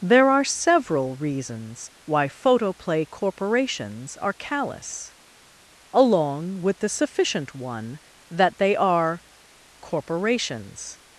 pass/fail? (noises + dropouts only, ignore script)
pass